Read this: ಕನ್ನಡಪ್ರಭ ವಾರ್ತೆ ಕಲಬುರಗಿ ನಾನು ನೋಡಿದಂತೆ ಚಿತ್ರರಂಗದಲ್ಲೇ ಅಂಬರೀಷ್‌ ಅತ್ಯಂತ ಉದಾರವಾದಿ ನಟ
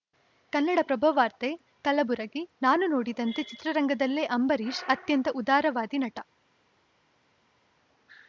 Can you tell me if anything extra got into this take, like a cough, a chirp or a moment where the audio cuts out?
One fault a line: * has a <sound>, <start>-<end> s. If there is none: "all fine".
all fine